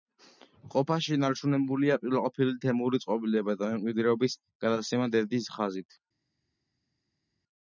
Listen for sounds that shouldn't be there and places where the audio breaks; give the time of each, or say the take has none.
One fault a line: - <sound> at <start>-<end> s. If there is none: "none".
none